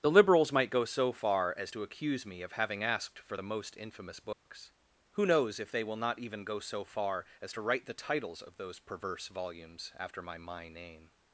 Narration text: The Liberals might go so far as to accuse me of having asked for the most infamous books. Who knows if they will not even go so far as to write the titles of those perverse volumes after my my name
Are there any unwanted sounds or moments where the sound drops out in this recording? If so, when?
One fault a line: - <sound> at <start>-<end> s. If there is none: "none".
- dropout at 4.3-4.5 s